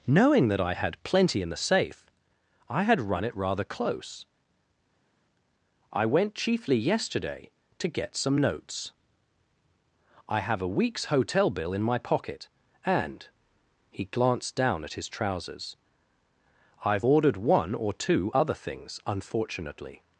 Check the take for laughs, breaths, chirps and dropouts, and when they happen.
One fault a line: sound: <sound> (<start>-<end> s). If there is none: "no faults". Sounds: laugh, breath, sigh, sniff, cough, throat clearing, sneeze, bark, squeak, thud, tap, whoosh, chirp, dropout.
no faults